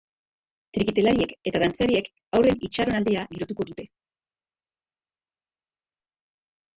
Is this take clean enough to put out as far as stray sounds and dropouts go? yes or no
yes